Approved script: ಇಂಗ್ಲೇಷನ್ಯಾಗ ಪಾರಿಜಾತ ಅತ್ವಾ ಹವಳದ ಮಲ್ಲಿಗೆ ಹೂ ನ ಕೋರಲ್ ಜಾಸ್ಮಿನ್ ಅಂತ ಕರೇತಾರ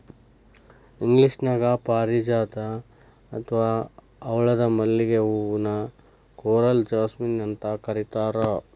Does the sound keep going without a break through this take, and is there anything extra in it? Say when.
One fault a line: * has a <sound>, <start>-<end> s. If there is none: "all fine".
all fine